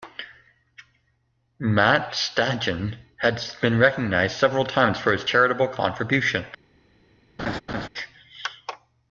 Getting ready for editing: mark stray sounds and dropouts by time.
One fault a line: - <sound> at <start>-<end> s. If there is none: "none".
- laugh at 7.4-7.9 s